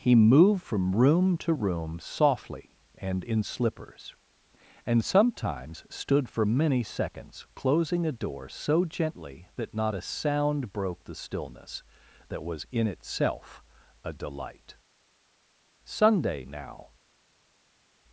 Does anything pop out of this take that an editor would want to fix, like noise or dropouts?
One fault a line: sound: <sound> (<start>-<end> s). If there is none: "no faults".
no faults